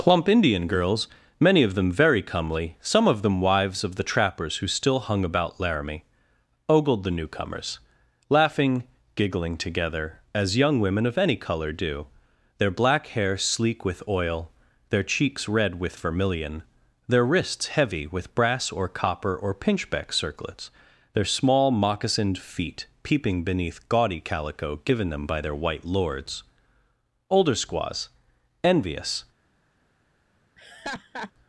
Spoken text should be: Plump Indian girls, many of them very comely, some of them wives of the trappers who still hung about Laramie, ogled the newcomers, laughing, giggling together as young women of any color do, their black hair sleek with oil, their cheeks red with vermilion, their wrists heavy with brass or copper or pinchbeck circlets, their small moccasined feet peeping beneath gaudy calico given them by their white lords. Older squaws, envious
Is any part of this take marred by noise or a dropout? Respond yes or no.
yes